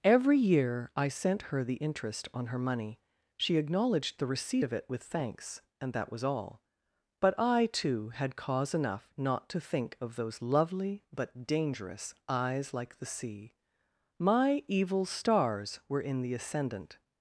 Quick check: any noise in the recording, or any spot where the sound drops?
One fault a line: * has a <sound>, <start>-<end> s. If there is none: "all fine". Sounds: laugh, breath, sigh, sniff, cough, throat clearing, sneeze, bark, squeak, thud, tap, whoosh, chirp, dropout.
all fine